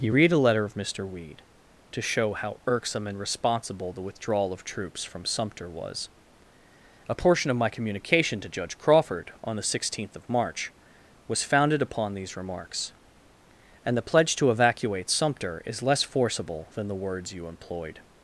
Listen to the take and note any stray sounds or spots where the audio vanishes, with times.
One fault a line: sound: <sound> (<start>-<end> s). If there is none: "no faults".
no faults